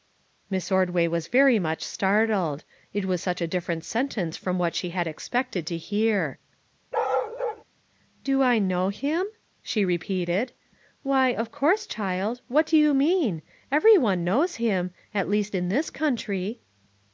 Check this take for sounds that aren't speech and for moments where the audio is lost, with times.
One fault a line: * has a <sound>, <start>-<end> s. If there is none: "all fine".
* has a bark, 6.9-7.6 s